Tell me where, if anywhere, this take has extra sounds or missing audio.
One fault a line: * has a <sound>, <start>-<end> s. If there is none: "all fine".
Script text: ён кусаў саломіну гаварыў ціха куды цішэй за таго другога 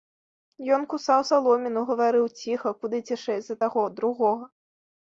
all fine